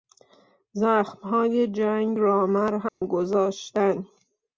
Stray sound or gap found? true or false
true